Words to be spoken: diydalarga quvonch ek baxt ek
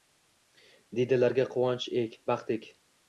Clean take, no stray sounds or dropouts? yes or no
yes